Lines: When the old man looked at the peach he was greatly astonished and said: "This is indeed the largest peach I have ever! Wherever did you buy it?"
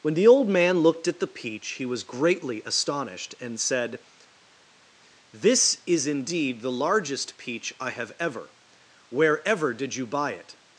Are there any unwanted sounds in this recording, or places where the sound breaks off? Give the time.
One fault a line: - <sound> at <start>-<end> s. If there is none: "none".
none